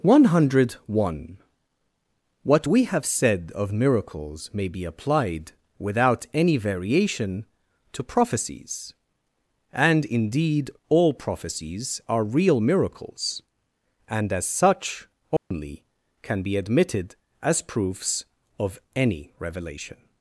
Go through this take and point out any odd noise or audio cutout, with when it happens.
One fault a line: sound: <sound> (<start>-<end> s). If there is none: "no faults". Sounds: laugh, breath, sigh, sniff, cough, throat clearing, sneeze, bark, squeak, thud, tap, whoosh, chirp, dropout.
sound: dropout (15.4-15.5 s)